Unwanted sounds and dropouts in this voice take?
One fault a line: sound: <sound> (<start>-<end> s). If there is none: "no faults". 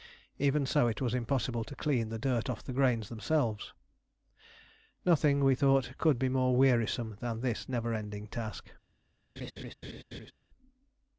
sound: laugh (9.4-10.3 s)